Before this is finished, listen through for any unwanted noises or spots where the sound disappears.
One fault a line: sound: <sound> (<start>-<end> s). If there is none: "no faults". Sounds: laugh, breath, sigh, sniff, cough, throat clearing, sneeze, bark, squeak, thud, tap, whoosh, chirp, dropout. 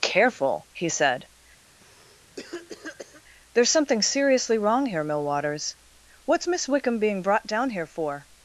sound: cough (1.7-3.2 s)